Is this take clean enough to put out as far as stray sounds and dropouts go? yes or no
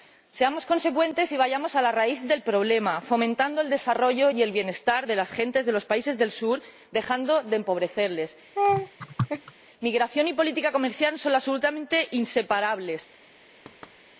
no